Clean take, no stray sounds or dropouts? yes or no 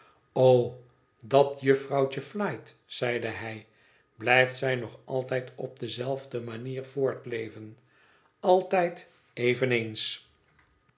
yes